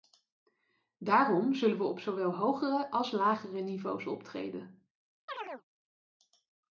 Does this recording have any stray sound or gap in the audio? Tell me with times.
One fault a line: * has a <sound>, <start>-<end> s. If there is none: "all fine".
* has a chirp, 5.3-5.6 s